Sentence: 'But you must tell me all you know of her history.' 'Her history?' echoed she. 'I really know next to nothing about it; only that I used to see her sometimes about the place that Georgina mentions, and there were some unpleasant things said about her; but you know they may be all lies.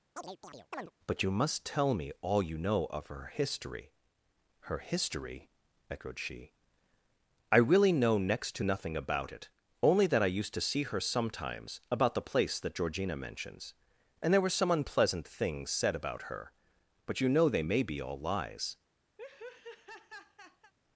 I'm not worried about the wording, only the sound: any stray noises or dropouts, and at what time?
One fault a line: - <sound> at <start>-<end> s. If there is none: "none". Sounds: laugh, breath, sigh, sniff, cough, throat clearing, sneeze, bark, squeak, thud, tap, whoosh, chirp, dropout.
- chirp at 0.2-0.9 s
- laugh at 19.2-20.7 s